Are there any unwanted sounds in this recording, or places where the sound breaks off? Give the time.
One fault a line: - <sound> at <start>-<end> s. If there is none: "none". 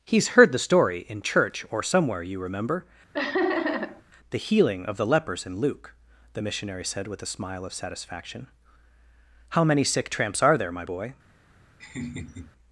- laugh at 3.1-4.0 s
- laugh at 11.8-12.5 s